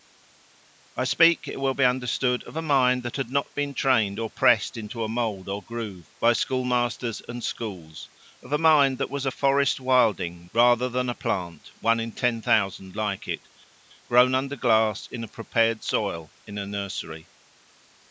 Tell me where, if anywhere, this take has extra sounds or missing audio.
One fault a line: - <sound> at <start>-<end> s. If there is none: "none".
none